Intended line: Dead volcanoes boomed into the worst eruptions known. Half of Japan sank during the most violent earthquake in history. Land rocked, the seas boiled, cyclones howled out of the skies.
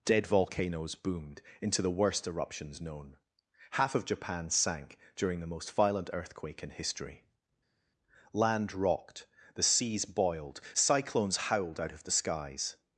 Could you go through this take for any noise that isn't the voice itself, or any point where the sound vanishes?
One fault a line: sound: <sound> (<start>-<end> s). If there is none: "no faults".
no faults